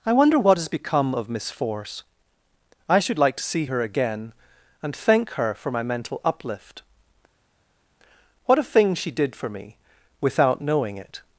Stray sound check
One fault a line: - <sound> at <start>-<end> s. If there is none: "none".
none